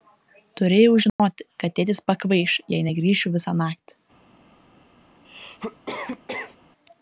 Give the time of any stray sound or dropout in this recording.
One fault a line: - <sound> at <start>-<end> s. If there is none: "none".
- dropout at 1.1-1.2 s
- cough at 5.2-6.6 s